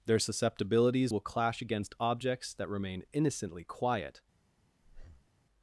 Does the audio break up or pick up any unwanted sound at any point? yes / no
yes